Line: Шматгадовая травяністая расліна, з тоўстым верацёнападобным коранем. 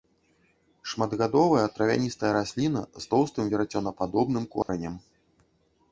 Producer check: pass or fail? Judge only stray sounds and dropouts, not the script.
fail